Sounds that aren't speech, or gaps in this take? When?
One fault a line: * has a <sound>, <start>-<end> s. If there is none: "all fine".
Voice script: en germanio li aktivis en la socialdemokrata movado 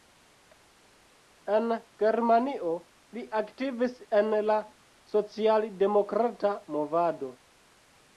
all fine